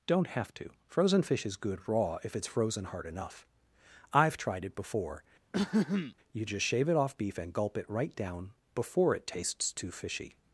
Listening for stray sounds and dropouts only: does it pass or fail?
fail